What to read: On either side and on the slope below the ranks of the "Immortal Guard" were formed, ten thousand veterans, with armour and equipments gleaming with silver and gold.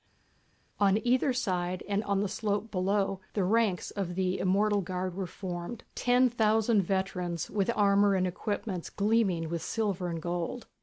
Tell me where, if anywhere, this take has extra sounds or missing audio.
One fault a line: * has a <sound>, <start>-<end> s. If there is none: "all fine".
all fine